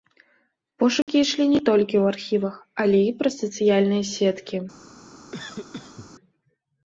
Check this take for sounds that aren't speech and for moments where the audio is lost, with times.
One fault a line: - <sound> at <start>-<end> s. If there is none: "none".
- dropout at 1.0-1.1 s
- cough at 5.3-6.1 s